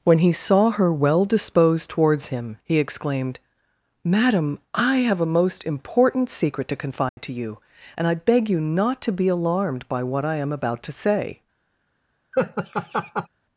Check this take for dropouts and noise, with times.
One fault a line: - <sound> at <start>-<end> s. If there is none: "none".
- dropout at 7.1-7.2 s
- laugh at 12.3-13.3 s